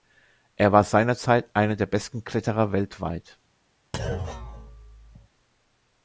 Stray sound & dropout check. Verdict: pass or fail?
fail